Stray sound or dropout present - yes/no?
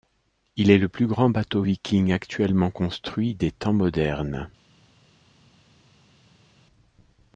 no